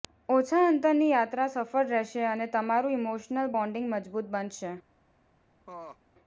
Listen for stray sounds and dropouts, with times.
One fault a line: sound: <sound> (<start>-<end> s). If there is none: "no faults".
sound: laugh (5.7-6.0 s)